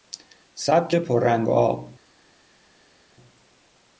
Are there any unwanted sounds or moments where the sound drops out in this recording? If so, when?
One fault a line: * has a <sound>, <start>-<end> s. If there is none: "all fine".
all fine